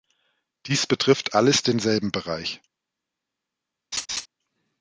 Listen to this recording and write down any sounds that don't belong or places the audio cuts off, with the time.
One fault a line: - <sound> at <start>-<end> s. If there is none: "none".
- laugh at 3.9-4.3 s